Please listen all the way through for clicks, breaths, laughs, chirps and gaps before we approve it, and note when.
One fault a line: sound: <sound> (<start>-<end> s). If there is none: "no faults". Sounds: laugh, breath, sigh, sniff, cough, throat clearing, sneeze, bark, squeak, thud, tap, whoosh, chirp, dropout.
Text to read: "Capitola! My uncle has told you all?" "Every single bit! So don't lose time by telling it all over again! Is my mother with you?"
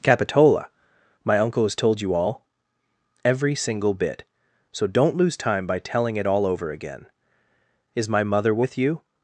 no faults